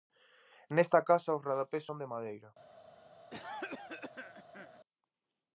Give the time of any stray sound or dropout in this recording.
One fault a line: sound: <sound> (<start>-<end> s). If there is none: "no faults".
sound: cough (3.3-4.8 s)